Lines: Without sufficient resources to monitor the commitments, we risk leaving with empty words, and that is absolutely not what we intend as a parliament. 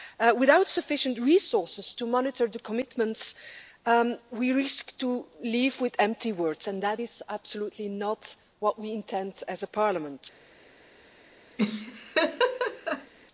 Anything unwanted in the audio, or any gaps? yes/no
yes